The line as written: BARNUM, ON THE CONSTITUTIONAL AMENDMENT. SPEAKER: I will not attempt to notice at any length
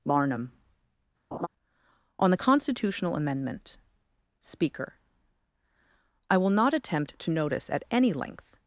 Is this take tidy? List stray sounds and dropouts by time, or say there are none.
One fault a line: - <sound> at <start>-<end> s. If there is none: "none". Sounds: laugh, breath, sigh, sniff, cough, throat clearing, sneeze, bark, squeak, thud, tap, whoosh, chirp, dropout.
- laugh at 1.3-1.5 s